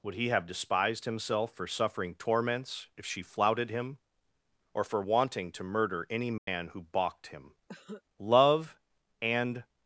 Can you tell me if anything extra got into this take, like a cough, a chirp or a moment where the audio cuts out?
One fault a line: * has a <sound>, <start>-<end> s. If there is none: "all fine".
* has a dropout, 6.4-6.5 s
* has a cough, 7.7-8.0 s